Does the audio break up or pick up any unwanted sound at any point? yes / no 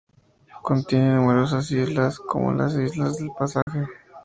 yes